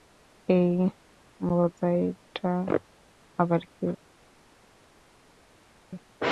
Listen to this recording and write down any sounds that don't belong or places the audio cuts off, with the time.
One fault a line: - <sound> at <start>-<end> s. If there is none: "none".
none